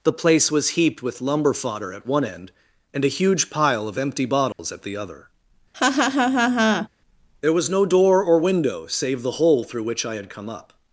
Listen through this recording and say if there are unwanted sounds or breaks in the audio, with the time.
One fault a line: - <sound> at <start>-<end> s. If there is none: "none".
- dropout at 4.5-4.6 s
- laugh at 5.7-6.9 s